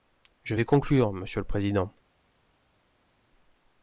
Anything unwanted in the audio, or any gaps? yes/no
no